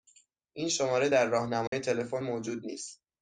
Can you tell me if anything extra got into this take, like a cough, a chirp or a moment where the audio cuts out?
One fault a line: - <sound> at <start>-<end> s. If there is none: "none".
- dropout at 1.7-1.7 s